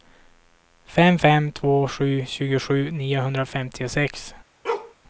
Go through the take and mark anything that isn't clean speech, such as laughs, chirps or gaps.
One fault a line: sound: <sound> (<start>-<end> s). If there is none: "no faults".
sound: bark (4.6-4.9 s)